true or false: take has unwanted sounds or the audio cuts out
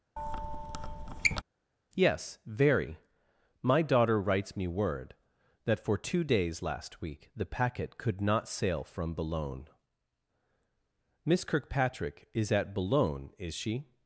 true